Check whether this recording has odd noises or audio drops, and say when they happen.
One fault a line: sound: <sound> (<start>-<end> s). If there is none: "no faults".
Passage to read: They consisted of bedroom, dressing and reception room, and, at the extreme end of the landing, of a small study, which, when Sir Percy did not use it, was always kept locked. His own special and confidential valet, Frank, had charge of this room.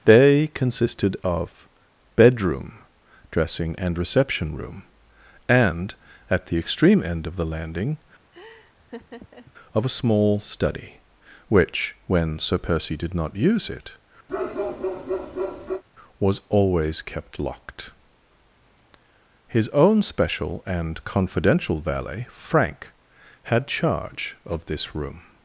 sound: laugh (8.3-9.5 s)
sound: bark (14.3-15.8 s)